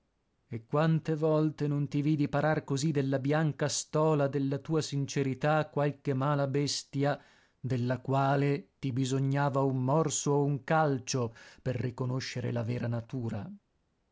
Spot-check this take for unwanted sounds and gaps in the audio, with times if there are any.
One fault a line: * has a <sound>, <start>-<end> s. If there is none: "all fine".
all fine